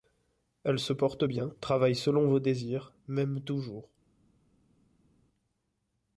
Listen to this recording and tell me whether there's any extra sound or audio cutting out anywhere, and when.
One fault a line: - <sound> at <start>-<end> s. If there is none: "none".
none